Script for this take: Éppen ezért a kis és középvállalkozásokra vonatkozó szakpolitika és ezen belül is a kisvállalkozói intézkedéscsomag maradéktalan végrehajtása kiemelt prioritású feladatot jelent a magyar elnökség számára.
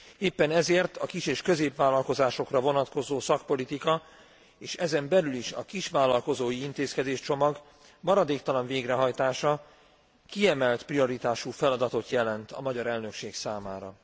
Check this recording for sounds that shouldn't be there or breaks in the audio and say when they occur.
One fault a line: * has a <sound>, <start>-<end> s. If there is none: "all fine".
all fine